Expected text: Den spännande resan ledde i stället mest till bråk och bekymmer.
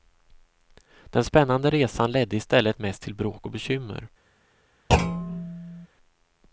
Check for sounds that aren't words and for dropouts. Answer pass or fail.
fail